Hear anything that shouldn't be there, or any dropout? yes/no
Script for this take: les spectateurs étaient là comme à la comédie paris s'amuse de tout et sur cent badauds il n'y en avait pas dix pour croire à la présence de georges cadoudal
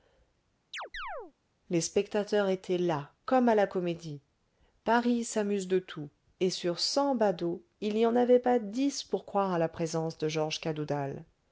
yes